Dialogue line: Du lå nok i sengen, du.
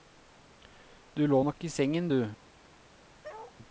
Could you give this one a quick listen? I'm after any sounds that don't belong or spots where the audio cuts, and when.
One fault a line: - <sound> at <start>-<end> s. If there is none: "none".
- bark at 3.2-3.6 s